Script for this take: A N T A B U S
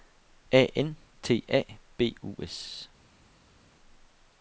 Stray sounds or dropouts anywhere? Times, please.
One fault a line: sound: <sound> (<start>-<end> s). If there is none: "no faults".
no faults